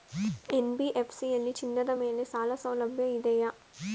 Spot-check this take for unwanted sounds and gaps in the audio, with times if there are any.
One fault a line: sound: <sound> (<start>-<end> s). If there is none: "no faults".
no faults